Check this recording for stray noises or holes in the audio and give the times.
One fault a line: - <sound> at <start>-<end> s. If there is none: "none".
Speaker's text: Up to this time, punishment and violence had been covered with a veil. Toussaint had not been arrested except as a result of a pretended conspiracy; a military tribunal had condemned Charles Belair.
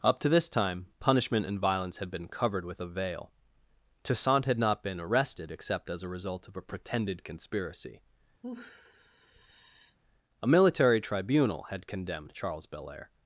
- sigh at 8.4-10.0 s